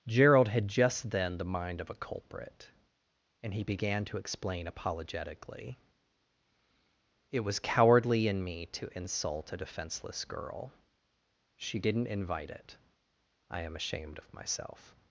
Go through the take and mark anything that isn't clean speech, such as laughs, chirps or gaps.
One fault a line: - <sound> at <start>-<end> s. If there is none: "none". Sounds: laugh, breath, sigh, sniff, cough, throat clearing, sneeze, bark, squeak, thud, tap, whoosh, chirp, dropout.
none